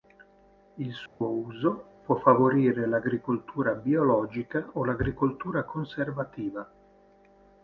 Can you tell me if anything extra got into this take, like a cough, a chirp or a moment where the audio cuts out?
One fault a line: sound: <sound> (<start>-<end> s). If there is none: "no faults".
sound: dropout (1.1-1.2 s)